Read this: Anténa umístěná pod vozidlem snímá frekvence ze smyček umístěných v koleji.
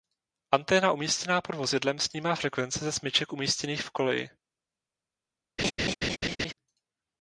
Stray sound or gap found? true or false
true